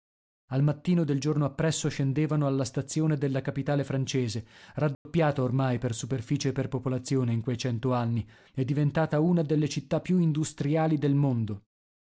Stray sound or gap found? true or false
true